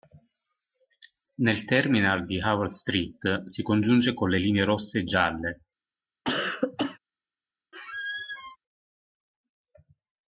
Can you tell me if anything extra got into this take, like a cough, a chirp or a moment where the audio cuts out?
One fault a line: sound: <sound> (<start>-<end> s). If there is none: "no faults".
sound: cough (6.2-7.0 s)
sound: squeak (7.7-8.6 s)